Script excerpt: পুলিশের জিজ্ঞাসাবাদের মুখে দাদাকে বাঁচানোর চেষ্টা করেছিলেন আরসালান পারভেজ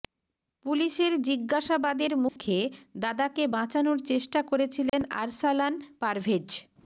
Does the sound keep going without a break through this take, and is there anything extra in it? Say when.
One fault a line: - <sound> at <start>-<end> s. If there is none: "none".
- dropout at 2.3-2.4 s
- dropout at 4.9-4.9 s